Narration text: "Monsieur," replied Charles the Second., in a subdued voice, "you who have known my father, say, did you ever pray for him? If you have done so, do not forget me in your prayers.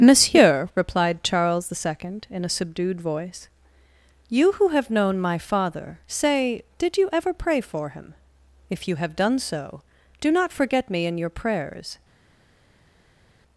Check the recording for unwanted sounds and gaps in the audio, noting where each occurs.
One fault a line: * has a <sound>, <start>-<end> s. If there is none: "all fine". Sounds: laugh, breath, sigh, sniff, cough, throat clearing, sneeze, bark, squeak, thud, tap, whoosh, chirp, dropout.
all fine